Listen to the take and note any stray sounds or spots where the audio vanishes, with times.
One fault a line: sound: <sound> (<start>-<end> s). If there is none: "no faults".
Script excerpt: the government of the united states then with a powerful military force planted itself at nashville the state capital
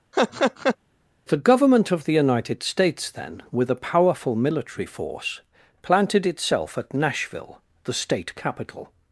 sound: laugh (0.1-0.8 s)